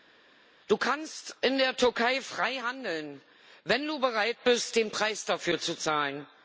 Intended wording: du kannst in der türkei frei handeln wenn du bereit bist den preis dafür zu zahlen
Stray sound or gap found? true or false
false